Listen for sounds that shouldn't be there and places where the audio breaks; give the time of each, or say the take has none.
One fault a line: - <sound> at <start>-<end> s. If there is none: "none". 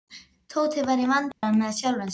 - dropout at 1.3-1.4 s